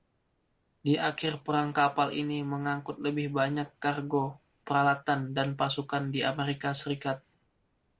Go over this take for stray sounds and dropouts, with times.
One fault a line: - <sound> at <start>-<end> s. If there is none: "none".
none